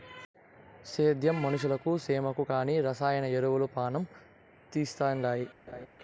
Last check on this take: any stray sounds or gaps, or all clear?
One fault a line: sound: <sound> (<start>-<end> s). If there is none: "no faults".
sound: laugh (5.7-5.9 s)